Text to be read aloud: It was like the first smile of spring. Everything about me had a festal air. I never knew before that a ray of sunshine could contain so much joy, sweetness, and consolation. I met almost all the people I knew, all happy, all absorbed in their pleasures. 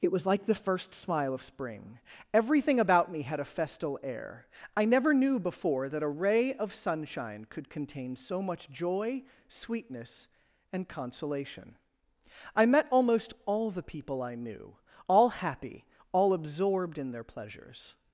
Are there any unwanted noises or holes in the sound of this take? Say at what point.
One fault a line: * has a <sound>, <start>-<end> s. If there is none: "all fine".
all fine